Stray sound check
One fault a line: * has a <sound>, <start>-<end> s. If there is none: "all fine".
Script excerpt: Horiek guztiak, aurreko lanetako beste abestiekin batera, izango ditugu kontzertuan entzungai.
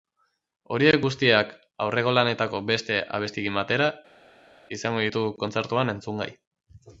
all fine